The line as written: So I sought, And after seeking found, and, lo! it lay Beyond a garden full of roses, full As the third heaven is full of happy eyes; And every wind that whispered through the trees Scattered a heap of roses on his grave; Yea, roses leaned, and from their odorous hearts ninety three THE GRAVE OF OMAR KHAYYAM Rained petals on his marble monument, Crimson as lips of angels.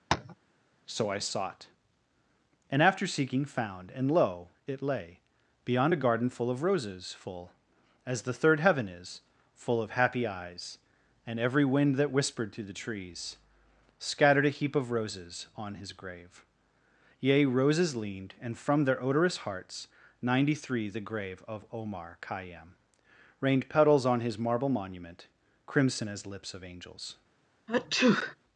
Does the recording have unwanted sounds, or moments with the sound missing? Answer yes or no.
yes